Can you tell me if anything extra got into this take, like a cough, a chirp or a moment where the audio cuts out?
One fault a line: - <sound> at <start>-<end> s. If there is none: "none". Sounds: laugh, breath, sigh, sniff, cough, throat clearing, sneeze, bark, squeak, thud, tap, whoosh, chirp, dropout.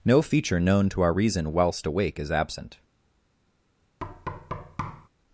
- thud at 4.0-5.1 s